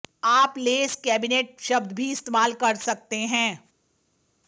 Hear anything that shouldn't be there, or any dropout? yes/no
no